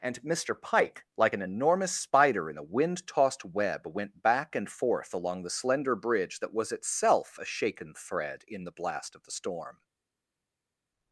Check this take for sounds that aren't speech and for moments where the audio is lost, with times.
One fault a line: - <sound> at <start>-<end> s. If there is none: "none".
none